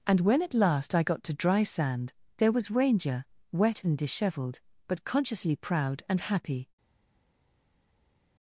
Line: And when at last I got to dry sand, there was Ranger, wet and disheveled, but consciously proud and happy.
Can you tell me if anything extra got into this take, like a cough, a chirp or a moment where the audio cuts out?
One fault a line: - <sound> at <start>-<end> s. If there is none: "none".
none